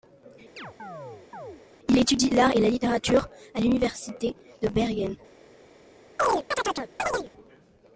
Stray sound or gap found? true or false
true